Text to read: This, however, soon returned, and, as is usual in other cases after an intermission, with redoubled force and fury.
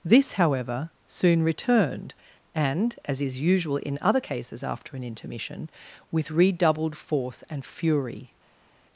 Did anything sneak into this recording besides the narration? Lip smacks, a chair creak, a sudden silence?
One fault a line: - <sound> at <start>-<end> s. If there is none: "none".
none